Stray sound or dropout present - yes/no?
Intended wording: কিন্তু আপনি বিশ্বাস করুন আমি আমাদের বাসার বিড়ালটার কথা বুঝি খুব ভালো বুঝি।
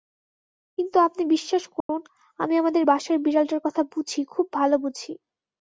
yes